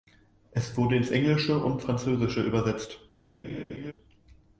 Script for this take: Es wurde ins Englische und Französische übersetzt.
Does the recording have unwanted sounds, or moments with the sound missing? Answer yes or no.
yes